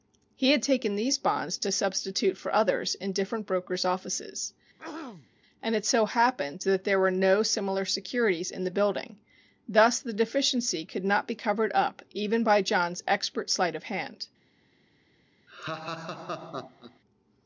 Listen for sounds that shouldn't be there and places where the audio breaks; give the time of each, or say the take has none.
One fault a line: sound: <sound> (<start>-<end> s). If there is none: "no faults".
sound: throat clearing (4.8-5.3 s)
sound: laugh (15.5-17.0 s)